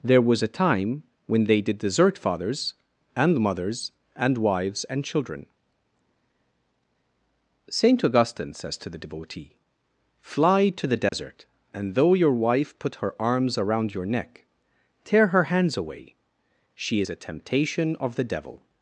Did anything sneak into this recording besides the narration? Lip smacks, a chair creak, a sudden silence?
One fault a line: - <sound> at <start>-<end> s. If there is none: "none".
- dropout at 11.1-11.1 s